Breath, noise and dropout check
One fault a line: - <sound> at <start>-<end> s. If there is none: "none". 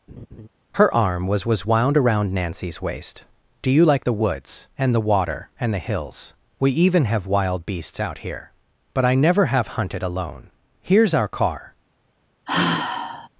- laugh at 0.1-0.5 s
- sigh at 12.5-13.3 s